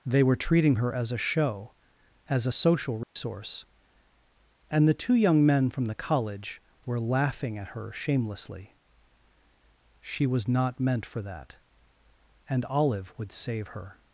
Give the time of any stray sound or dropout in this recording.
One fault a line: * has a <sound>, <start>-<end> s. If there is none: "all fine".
* has a dropout, 3.0-3.2 s